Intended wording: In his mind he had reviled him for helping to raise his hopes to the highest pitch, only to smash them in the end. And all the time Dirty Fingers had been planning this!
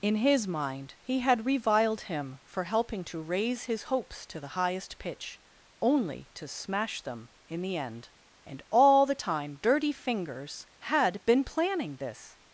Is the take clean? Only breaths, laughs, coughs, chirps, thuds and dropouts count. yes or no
yes